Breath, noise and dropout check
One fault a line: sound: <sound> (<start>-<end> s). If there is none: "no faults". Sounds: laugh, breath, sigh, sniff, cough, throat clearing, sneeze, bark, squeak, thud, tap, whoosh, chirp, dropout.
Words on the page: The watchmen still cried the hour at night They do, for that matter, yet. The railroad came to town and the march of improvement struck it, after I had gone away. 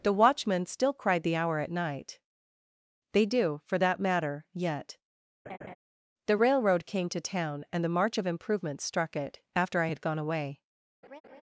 sound: laugh (5.5-5.8 s)
sound: laugh (11.0-11.4 s)